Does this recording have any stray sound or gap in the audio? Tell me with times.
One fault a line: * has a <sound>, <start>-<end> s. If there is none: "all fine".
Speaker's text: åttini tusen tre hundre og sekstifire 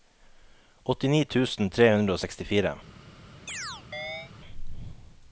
* has a chirp, 3.5-4.3 s